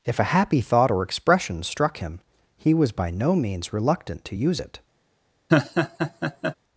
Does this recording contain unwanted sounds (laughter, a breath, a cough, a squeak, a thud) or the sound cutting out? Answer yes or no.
yes